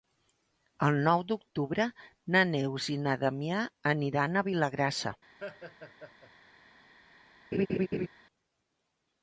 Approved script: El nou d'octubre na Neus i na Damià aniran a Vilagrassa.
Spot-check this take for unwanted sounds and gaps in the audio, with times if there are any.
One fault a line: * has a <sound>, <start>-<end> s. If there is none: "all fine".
* has a laugh, 5.4-6.3 s
* has a laugh, 7.5-8.1 s